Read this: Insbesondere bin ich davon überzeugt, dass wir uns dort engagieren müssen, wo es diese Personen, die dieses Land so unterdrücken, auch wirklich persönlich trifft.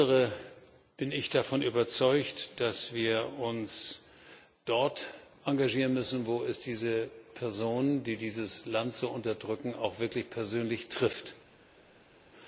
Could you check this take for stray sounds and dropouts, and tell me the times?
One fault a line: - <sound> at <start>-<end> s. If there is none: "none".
none